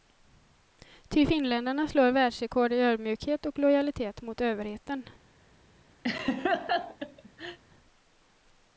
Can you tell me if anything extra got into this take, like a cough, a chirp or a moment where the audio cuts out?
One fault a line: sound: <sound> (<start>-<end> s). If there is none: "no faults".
sound: laugh (6.0-7.6 s)